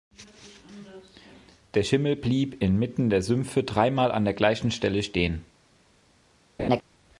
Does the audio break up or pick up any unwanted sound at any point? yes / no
yes